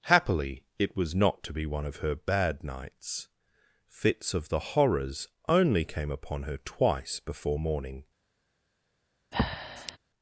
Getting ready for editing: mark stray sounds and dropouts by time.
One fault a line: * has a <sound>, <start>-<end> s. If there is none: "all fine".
* has a breath, 9.3-10.0 s